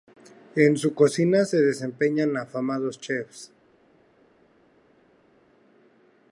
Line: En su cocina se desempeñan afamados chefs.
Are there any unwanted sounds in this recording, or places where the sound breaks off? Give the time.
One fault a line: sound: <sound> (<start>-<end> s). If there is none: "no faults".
no faults